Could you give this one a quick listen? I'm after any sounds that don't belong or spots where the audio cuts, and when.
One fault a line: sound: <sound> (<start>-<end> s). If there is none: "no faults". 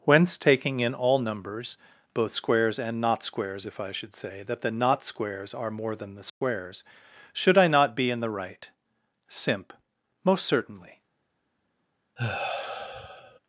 sound: dropout (6.3-6.4 s)
sound: sigh (12.2-13.4 s)